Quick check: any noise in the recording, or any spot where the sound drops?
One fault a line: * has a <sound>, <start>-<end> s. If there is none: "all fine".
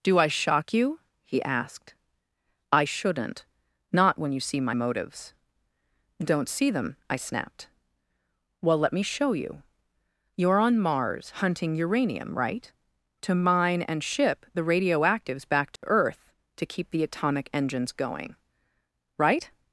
* has a dropout, 15.8-15.8 s